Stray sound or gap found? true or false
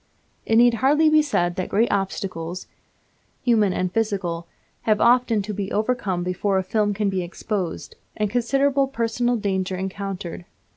false